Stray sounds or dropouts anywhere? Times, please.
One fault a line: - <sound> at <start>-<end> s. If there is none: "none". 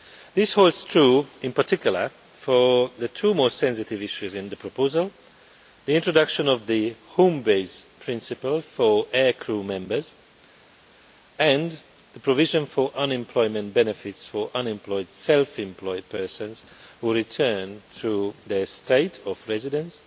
none